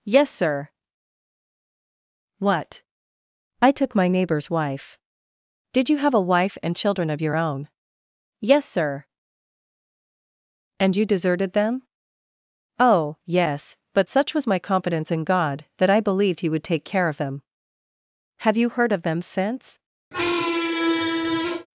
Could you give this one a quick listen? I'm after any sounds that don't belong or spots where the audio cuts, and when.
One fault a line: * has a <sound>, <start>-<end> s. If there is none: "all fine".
* has a squeak, 20.1-21.7 s